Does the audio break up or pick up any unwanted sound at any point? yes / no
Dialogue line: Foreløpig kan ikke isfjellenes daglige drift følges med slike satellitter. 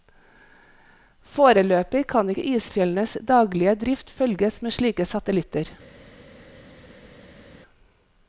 no